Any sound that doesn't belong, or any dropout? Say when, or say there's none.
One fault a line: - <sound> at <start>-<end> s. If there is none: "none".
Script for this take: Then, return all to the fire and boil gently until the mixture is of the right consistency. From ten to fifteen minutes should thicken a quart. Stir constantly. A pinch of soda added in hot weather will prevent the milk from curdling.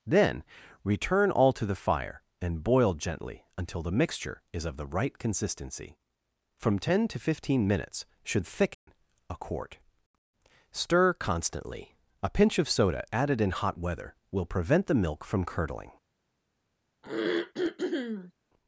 - dropout at 8.7-8.9 s
- throat clearing at 17.0-18.3 s